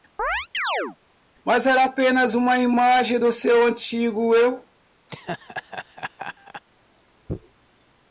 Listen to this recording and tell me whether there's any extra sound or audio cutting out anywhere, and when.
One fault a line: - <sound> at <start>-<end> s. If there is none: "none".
- chirp at 0.2-1.0 s
- laugh at 5.1-6.6 s